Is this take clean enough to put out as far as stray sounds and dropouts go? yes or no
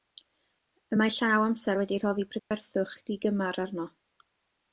no